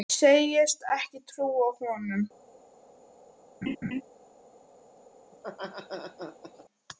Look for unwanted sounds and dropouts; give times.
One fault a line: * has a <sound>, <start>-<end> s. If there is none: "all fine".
* has a laugh, 3.6-4.0 s
* has a laugh, 5.3-6.6 s